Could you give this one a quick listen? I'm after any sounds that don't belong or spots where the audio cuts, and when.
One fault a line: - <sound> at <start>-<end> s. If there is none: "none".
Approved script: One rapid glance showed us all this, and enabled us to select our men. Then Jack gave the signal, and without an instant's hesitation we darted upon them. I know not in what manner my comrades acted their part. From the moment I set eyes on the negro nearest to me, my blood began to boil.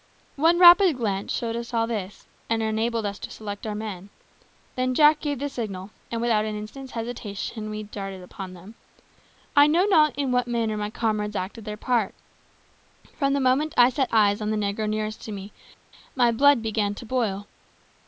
none